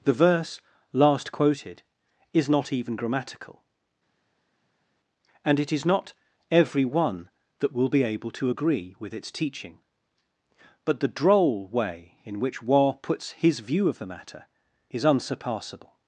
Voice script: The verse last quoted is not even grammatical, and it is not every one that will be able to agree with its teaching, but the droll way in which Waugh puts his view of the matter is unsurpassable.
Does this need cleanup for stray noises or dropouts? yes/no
no